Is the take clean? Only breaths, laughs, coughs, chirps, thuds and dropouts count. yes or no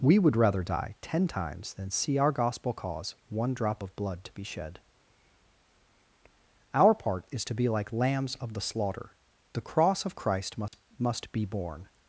no